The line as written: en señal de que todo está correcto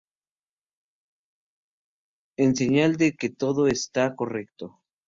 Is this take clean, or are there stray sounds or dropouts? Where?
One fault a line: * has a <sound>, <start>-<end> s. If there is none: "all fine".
all fine